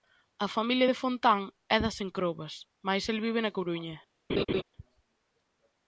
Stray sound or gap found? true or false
true